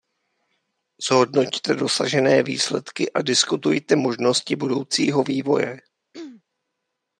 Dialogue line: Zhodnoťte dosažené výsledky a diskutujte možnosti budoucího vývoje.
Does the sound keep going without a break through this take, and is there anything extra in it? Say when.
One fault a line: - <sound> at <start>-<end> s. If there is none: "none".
- throat clearing at 6.1-6.4 s